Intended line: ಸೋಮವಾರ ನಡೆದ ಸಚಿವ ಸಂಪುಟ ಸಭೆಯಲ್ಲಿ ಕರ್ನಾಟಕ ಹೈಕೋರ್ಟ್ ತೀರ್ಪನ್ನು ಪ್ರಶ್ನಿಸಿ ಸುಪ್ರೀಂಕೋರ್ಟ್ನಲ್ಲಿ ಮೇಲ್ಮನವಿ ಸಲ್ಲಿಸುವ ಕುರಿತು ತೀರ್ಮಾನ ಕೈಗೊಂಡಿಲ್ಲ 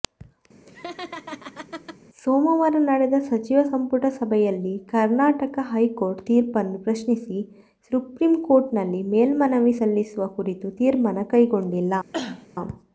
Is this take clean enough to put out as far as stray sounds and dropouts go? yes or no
no